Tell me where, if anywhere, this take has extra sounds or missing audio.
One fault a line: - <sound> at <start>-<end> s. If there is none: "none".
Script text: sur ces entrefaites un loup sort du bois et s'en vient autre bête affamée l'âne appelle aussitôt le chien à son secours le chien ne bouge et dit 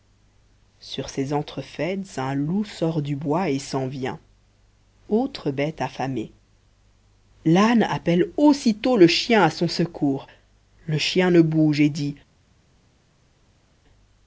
none